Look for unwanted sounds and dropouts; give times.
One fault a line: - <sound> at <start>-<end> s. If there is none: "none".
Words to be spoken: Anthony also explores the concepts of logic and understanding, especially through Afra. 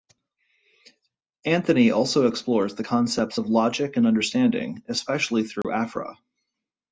- dropout at 5.6-5.6 s